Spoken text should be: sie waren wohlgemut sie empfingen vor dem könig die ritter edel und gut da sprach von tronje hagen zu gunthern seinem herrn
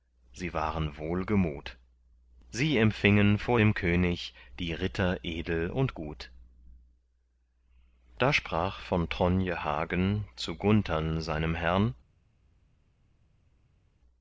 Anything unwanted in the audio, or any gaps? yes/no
no